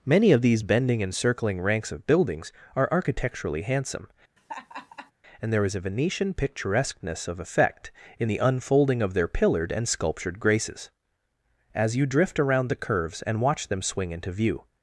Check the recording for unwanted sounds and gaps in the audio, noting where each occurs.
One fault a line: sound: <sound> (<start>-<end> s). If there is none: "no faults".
sound: laugh (4.4-5.1 s)